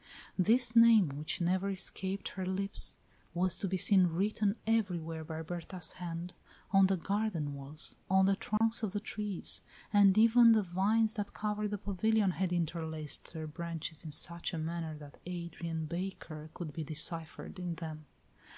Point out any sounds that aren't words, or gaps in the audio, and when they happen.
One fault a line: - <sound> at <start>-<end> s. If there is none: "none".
- dropout at 8.6-8.6 s